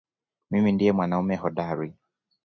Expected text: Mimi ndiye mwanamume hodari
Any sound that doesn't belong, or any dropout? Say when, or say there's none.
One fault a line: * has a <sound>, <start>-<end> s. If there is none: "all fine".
all fine